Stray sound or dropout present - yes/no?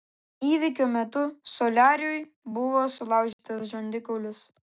yes